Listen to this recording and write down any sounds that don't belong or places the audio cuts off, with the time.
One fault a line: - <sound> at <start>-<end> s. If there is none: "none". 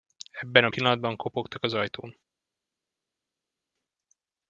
none